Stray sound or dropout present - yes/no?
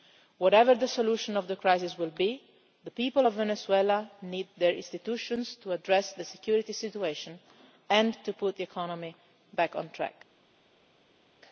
no